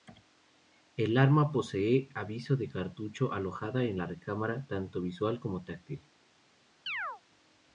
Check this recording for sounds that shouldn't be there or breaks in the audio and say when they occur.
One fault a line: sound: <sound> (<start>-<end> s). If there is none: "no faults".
sound: chirp (6.9-7.2 s)